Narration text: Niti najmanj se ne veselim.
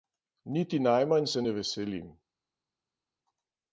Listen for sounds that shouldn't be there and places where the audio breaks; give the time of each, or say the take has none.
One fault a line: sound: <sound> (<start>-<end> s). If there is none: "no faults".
no faults